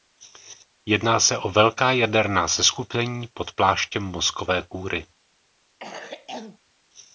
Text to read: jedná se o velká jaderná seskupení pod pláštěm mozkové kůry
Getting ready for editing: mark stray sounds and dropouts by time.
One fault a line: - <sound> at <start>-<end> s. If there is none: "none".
- cough at 5.8-6.6 s